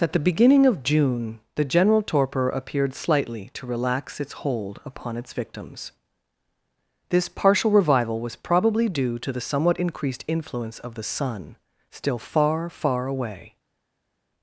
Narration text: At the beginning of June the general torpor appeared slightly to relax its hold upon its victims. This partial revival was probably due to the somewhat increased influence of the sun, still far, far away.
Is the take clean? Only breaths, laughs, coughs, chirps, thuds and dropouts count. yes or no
yes